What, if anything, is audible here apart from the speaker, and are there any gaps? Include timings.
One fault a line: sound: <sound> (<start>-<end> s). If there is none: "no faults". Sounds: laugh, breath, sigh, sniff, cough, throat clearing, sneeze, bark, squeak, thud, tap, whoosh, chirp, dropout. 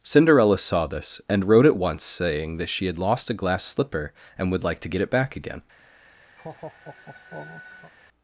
sound: laugh (6.4-7.9 s)